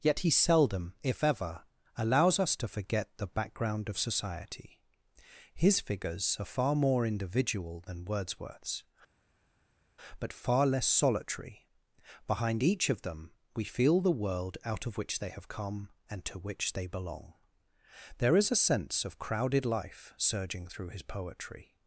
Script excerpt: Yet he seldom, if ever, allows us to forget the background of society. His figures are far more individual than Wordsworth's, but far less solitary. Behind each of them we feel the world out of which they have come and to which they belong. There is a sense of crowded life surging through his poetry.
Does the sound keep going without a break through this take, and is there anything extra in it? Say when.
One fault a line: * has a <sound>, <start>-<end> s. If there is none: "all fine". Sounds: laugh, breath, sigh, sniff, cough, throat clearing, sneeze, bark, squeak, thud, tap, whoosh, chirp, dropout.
all fine